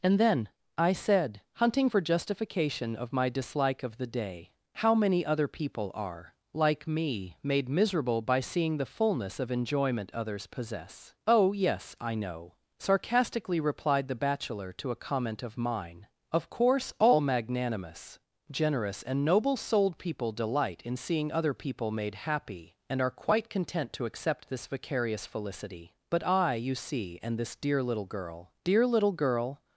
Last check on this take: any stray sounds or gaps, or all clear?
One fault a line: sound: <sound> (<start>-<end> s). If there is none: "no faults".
no faults